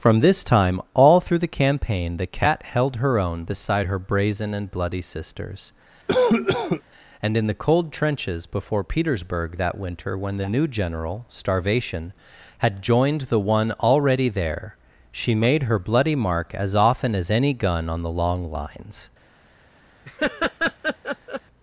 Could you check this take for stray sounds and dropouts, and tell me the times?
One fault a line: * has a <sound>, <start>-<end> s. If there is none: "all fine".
* has a cough, 6.1-6.8 s
* has a laugh, 20.0-21.4 s